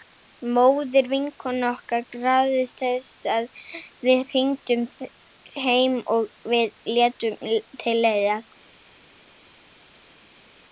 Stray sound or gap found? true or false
false